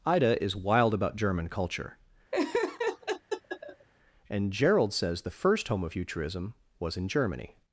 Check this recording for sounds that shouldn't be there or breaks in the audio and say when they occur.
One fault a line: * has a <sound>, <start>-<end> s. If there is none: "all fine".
* has a laugh, 2.3-3.9 s